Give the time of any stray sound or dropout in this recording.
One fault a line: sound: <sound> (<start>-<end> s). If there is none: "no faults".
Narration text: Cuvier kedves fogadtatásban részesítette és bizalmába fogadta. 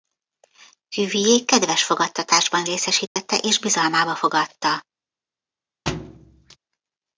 sound: dropout (3.1-3.2 s)
sound: thud (5.9-6.6 s)